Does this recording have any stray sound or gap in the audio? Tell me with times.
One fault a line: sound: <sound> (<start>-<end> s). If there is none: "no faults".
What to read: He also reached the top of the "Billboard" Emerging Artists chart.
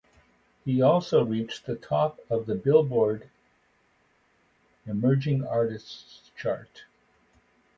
no faults